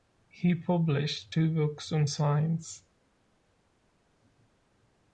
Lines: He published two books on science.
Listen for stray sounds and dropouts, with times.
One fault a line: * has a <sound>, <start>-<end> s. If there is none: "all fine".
all fine